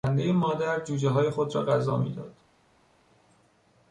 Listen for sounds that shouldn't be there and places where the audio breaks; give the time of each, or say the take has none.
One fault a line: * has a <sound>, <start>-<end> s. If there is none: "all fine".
all fine